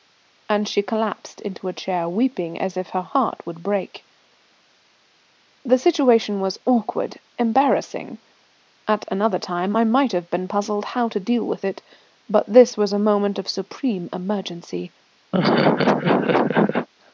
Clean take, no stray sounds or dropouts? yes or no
no